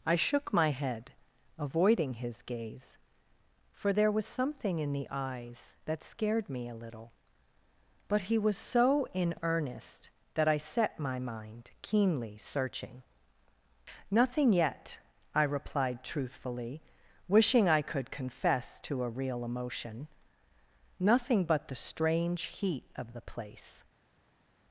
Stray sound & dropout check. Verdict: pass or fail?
pass